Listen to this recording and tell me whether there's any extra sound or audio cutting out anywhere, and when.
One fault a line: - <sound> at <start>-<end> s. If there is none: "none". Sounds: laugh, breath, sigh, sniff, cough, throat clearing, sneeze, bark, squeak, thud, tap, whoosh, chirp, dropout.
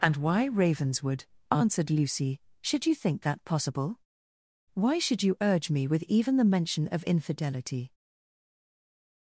none